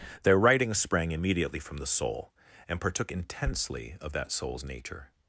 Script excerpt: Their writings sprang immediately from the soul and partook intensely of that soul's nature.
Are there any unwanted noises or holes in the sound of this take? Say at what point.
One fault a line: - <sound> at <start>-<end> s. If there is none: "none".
none